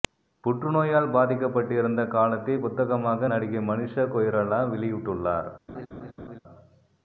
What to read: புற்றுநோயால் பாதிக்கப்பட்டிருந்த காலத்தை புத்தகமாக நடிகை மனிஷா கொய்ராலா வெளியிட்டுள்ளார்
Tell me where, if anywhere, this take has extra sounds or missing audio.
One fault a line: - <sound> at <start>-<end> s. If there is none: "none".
- laugh at 5.7-6.4 s